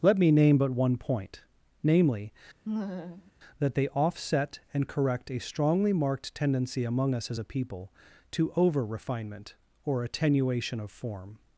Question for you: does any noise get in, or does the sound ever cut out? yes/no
yes